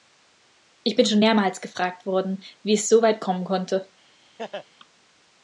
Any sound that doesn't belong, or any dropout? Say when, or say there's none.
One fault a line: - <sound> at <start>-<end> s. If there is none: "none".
- laugh at 4.4-4.7 s